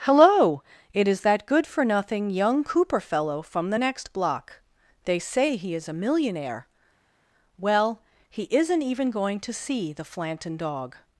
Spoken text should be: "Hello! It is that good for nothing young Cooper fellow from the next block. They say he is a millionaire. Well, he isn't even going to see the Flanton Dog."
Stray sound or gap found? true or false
false